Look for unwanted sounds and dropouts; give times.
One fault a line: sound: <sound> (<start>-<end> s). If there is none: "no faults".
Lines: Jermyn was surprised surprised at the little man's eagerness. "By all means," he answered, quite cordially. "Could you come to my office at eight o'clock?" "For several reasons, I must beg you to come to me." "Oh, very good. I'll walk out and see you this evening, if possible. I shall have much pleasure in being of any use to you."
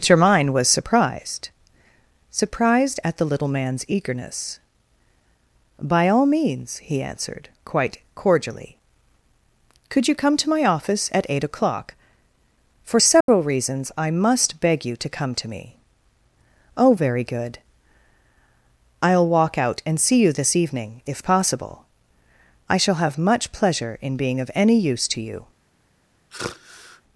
sound: dropout (13.2-13.3 s)
sound: sigh (26.3-27.0 s)